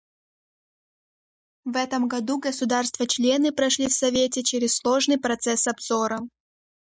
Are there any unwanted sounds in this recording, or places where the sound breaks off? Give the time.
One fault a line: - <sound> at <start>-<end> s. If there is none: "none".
none